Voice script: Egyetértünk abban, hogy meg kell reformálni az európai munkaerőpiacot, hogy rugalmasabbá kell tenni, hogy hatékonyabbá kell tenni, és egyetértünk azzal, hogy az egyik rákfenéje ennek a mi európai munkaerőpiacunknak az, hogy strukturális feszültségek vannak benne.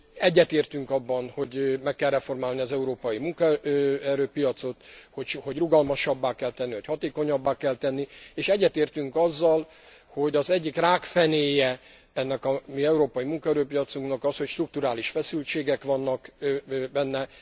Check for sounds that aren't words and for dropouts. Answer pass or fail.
pass